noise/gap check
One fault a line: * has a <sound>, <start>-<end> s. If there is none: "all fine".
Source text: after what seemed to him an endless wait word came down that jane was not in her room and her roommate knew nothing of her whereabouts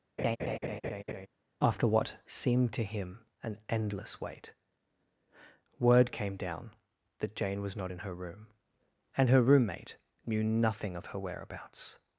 * has a laugh, 0.2-1.3 s